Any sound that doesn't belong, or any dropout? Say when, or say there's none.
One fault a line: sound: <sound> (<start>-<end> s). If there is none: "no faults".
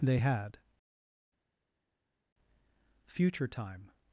no faults